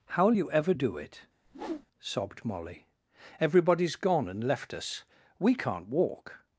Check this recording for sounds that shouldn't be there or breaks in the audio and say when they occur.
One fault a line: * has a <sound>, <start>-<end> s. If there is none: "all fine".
* has a whoosh, 1.5-1.9 s